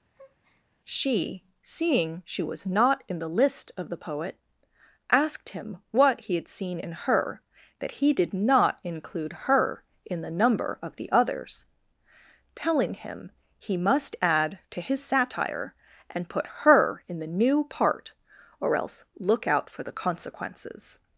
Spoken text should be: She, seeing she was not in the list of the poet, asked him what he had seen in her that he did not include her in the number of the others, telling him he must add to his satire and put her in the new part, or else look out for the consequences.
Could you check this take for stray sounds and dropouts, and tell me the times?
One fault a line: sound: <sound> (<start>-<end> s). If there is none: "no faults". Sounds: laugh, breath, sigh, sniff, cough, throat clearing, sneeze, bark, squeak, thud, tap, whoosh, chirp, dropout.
sound: breath (0.1-0.7 s)